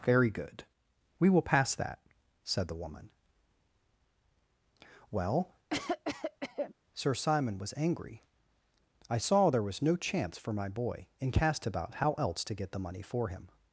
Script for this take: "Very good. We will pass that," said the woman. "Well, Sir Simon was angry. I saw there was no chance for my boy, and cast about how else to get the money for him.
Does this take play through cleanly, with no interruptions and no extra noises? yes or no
no